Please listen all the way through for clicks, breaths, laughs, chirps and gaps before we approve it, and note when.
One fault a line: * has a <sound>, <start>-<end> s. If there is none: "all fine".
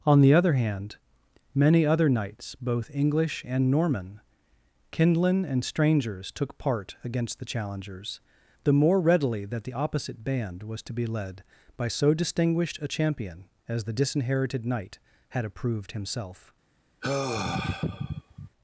* has a sigh, 17.0-18.5 s